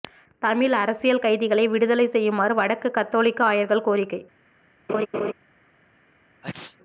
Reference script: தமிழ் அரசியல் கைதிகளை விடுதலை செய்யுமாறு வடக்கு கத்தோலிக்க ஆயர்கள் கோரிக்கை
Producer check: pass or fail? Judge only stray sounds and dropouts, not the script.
fail